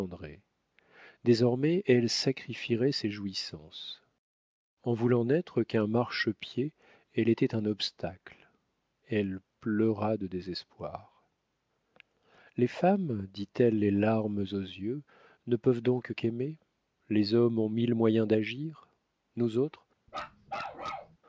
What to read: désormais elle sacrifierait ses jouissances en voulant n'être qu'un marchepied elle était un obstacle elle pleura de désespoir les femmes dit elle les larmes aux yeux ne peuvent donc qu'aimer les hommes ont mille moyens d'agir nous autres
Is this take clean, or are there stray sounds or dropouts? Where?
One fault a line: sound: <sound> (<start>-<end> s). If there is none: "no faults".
sound: bark (20.1-21.2 s)